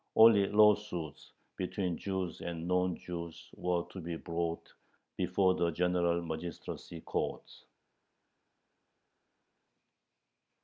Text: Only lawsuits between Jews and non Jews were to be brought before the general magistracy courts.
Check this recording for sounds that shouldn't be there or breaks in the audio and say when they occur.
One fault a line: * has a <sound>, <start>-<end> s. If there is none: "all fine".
all fine